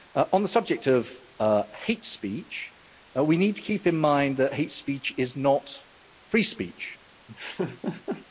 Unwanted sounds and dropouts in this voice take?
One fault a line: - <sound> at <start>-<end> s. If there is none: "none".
- laugh at 7.3-8.3 s